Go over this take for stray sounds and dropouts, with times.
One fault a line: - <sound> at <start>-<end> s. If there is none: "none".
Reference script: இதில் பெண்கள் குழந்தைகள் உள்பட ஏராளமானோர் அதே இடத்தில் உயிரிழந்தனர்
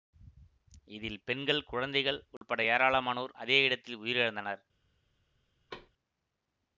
- dropout at 2.4-2.4 s
- thud at 5.7-5.9 s